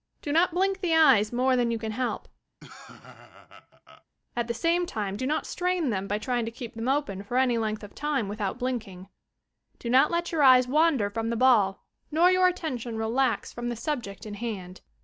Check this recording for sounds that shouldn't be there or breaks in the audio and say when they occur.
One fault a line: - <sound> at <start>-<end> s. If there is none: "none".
- laugh at 2.6-4.0 s